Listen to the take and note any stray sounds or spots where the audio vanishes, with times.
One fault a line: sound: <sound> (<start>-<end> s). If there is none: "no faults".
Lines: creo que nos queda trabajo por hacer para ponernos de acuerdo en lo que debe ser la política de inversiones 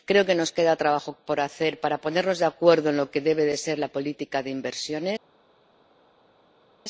no faults